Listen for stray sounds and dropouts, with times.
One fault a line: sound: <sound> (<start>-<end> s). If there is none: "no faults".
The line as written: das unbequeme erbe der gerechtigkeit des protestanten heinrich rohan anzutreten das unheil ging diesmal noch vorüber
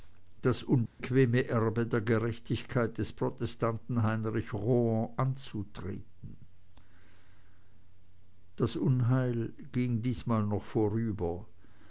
sound: dropout (0.9-1.0 s)